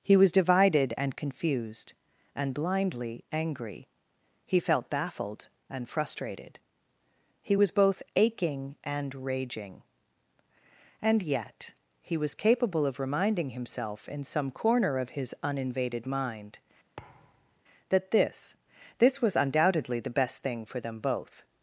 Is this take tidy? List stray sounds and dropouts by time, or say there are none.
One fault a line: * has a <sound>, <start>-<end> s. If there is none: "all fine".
* has a thud, 17.0-17.6 s